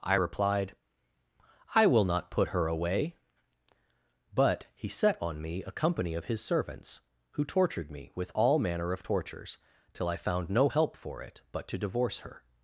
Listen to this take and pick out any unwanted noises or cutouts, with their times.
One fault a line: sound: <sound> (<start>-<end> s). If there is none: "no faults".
no faults